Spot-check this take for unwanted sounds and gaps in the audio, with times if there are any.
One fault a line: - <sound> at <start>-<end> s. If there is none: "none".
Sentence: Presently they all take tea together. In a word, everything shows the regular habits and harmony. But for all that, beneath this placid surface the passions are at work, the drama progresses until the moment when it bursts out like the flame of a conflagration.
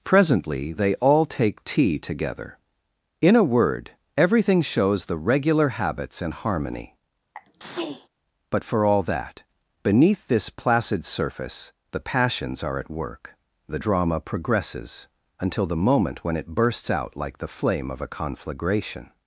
- sneeze at 7.3-8.1 s